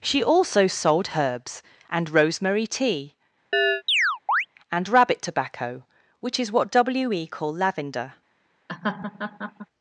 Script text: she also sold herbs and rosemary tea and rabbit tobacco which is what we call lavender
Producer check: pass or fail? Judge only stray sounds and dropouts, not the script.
fail